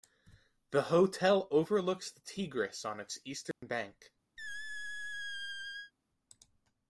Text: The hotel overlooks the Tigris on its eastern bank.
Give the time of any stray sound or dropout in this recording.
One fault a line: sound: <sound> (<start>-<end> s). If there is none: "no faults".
sound: dropout (3.5-3.6 s)
sound: squeak (4.4-5.9 s)